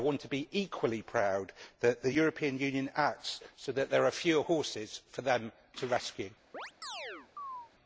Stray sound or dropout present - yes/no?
yes